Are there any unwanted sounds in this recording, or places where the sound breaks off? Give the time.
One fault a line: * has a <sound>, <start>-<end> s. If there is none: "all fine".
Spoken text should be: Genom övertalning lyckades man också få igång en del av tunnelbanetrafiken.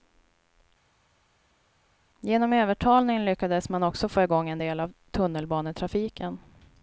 all fine